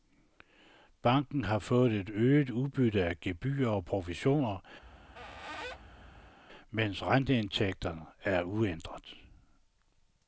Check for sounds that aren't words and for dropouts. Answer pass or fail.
fail